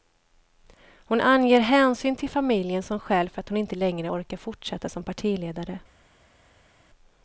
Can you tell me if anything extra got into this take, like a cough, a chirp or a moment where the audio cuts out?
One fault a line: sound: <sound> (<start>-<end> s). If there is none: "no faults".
no faults